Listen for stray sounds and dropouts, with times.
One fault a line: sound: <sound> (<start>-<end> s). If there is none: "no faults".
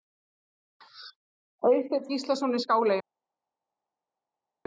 no faults